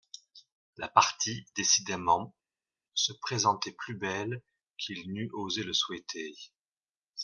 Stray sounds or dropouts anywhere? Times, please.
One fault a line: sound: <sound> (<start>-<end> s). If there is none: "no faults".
no faults